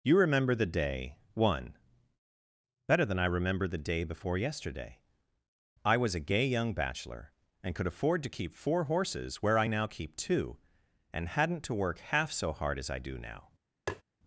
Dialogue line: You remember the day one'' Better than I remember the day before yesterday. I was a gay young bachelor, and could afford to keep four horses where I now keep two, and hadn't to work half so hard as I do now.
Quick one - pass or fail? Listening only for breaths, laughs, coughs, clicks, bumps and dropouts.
fail